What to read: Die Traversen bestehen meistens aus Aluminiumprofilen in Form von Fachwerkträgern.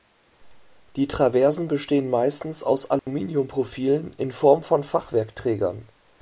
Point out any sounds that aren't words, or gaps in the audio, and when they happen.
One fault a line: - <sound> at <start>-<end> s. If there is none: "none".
- dropout at 3.0-3.1 s